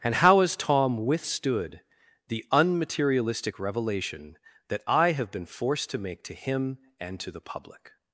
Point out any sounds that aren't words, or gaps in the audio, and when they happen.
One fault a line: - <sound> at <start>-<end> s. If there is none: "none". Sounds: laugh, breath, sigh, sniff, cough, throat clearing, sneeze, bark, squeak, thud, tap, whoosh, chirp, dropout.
none